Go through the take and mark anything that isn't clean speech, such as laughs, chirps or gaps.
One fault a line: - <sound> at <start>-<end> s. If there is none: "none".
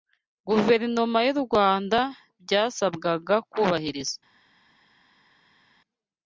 none